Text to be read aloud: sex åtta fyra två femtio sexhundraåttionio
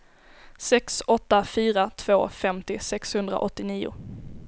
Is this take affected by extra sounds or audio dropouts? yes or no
no